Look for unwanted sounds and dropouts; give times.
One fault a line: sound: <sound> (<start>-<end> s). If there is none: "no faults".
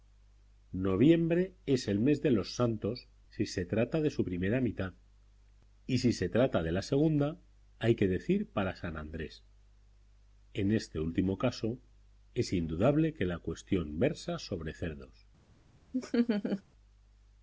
sound: laugh (15.9-16.6 s)